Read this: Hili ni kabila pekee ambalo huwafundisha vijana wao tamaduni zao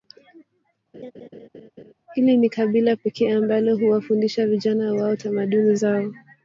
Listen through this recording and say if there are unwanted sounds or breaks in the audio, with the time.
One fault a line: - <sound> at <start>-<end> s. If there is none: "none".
- laugh at 0.9-1.9 s